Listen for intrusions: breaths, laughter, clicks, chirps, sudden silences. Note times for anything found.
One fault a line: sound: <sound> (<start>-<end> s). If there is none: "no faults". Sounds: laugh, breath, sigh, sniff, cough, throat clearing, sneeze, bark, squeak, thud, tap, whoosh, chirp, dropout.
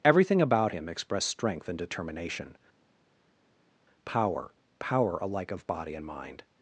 no faults